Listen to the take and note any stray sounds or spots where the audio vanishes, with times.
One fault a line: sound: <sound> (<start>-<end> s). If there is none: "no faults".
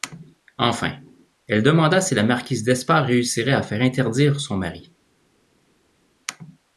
no faults